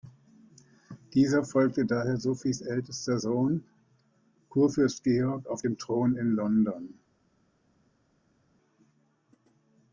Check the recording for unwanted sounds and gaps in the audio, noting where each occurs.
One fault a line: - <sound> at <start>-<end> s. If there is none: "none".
none